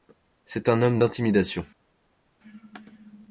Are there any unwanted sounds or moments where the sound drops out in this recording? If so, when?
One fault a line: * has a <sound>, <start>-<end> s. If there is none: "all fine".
all fine